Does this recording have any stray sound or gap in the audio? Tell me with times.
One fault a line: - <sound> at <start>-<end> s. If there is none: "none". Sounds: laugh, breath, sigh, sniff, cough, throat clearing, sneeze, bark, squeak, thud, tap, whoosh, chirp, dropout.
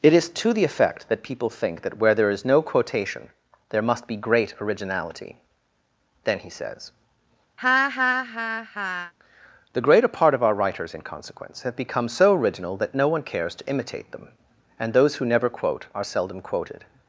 - laugh at 7.6-9.1 s